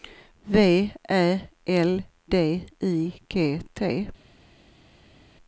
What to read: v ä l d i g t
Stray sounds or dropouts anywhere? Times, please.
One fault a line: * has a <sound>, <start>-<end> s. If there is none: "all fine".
all fine